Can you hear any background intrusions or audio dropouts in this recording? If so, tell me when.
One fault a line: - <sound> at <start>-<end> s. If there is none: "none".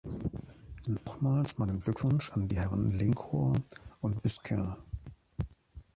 none